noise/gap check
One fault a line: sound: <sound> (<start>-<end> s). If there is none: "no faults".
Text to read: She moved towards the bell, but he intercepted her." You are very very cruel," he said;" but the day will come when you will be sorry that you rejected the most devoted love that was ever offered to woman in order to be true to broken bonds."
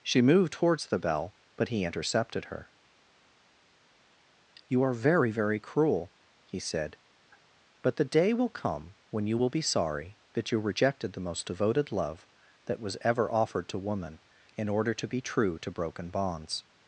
no faults